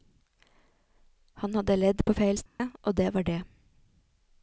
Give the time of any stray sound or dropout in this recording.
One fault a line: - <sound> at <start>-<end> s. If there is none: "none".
- dropout at 2.5-2.6 s